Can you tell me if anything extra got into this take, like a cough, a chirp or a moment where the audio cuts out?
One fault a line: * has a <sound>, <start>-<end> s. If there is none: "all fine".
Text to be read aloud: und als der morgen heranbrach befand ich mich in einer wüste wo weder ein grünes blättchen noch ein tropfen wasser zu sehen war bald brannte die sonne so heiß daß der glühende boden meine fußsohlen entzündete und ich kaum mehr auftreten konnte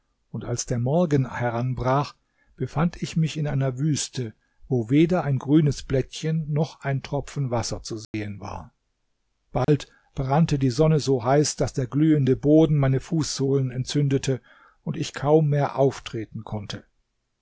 * has a dropout, 8.0-8.1 s
* has a dropout, 9.6-9.7 s